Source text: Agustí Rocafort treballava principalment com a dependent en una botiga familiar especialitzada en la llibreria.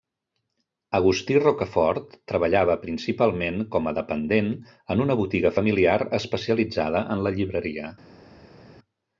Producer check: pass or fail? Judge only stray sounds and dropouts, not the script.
pass